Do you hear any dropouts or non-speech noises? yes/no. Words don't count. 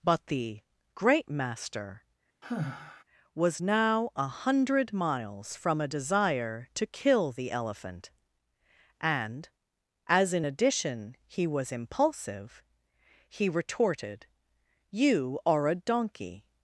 yes